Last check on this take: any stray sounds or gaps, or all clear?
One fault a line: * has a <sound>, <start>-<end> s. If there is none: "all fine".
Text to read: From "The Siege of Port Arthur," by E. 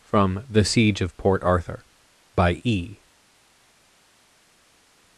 all fine